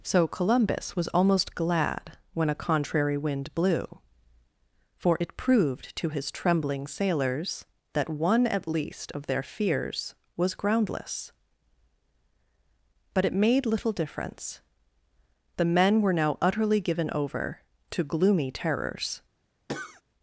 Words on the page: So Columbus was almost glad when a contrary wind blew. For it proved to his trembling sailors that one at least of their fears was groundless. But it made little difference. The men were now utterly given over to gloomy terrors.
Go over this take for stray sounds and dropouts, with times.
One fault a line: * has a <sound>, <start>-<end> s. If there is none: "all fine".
* has a cough, 19.7-20.0 s